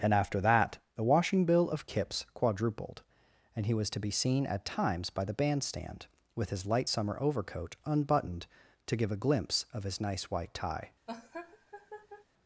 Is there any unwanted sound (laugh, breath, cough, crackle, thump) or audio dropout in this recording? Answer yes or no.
yes